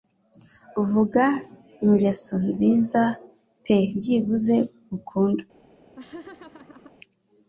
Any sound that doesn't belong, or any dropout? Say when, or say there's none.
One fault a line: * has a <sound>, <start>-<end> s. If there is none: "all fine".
* has a laugh, 6.0-6.9 s